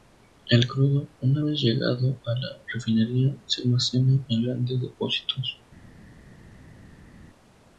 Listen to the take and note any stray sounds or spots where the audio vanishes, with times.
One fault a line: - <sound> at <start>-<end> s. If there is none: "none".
none